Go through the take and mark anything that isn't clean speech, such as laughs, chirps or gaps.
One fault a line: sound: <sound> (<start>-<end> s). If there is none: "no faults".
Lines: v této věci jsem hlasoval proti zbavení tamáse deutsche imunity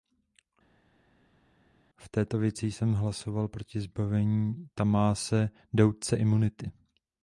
no faults